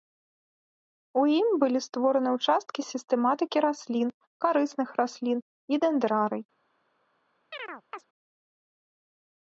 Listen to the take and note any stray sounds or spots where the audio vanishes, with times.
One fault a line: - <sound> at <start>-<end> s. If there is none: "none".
- chirp at 7.5-8.0 s